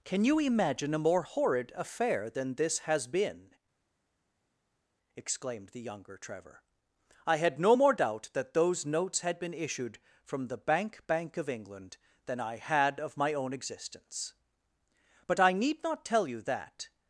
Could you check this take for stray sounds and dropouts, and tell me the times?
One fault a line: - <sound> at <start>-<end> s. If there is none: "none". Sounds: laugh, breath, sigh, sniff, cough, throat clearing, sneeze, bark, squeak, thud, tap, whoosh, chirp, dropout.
none